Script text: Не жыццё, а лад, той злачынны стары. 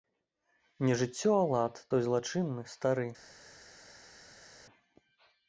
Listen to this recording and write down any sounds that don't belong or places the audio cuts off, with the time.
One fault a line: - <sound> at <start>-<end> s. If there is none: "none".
none